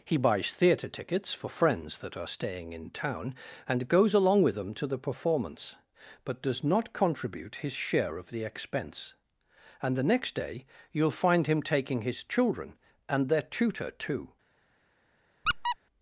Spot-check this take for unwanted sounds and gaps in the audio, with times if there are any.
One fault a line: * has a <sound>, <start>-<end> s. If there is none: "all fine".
* has a squeak, 15.5-15.8 s